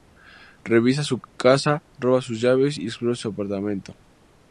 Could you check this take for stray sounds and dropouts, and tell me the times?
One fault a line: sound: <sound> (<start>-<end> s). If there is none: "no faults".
no faults